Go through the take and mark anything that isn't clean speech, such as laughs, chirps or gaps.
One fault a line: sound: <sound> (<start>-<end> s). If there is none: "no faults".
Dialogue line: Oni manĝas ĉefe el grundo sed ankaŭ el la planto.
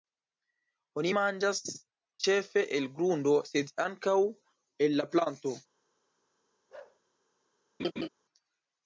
sound: bark (6.7-7.0 s)
sound: laugh (7.8-8.1 s)